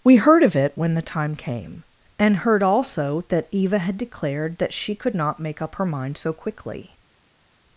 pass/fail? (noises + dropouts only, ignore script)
pass